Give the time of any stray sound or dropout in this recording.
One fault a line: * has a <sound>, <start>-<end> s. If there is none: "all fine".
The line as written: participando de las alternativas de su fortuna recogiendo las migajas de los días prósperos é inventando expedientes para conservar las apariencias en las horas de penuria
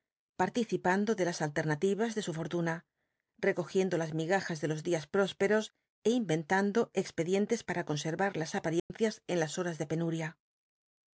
* has a dropout, 8.8-8.9 s